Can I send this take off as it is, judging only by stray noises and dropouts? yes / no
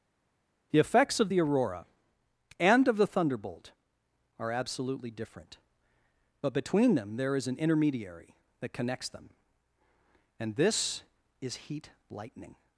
yes